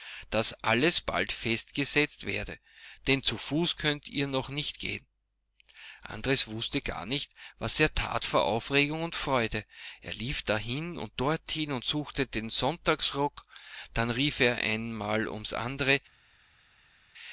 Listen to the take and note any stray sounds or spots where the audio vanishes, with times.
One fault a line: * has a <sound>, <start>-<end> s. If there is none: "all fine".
all fine